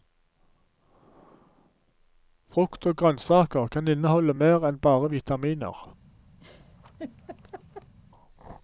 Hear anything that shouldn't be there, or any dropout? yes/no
yes